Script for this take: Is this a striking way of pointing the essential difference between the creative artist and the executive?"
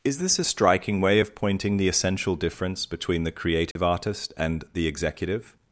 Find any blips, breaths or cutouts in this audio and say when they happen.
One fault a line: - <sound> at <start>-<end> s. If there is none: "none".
- dropout at 3.7-3.8 s